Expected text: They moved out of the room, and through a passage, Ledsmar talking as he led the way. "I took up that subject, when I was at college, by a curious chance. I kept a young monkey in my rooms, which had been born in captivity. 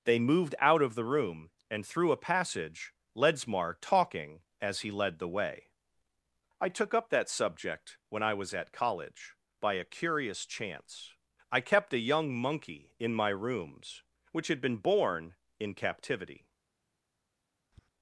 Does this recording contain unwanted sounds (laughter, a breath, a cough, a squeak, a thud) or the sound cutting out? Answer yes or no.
yes